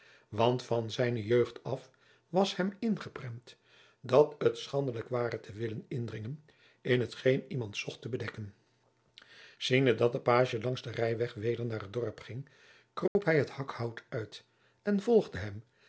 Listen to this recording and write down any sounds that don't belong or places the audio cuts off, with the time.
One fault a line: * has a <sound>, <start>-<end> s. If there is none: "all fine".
* has a dropout, 13.1-13.2 s